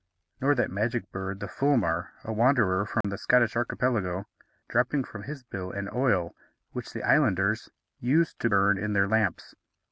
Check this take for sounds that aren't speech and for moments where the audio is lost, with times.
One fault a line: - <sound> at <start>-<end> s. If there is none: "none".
- dropout at 3.0-3.0 s